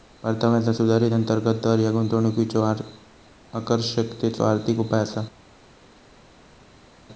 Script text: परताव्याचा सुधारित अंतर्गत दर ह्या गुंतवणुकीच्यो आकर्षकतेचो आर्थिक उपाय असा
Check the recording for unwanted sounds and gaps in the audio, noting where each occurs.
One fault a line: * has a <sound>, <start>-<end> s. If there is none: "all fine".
all fine